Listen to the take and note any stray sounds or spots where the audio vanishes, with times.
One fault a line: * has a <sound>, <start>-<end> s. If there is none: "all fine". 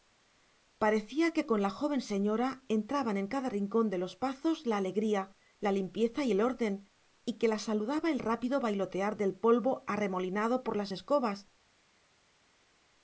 all fine